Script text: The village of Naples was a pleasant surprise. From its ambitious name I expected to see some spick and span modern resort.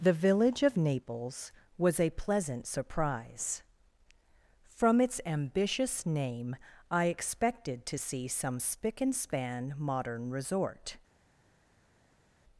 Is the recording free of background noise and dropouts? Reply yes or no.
yes